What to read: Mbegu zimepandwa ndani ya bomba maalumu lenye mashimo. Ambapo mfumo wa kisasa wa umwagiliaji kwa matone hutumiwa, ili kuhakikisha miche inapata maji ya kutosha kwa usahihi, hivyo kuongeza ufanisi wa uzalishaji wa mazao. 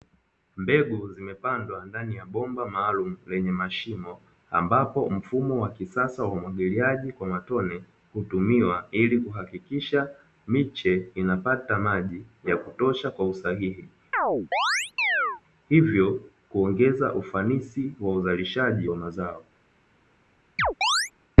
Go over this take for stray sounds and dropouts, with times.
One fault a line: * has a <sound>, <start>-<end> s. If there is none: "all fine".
* has a chirp, 14.1-15.4 s
* has a chirp, 20.6-21.1 s